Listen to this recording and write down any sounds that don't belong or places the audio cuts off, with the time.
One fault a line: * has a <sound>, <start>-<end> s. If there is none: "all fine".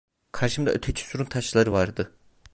all fine